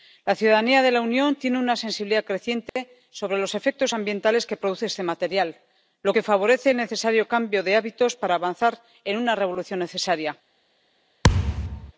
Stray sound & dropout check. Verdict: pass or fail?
fail